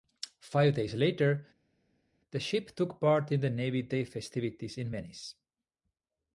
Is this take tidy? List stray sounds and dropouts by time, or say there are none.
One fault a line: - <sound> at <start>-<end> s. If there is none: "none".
none